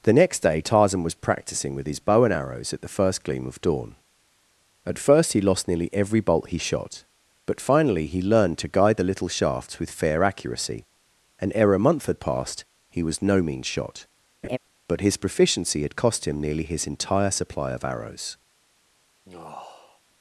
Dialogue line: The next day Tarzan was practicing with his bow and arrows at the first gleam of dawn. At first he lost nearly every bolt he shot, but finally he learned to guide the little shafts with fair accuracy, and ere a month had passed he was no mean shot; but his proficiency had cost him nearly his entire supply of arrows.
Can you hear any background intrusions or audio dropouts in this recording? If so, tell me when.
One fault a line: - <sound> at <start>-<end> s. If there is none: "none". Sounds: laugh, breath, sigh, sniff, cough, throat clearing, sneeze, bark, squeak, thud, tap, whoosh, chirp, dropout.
- laugh at 14.4-14.6 s
- sigh at 19.3-20.0 s